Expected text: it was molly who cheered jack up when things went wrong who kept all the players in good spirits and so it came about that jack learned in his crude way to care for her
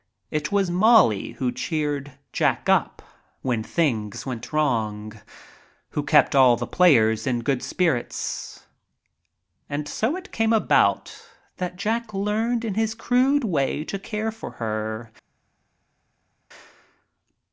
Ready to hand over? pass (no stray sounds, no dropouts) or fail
pass